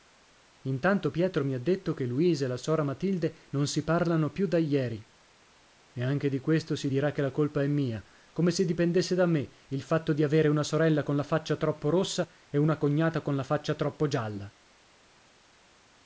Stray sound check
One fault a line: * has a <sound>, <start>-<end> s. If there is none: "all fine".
all fine